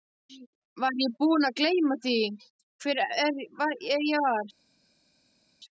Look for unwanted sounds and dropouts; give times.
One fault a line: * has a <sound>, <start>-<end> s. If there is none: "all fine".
all fine